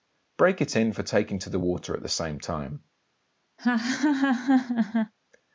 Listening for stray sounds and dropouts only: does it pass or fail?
fail